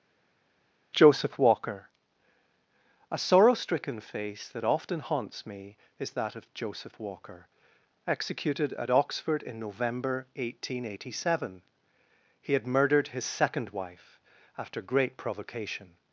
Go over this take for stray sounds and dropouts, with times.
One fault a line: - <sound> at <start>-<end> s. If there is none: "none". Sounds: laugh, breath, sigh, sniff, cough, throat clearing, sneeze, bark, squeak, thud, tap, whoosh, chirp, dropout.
none